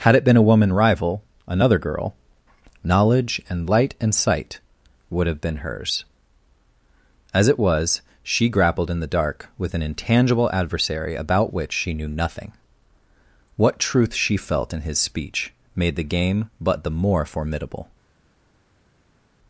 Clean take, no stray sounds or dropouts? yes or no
yes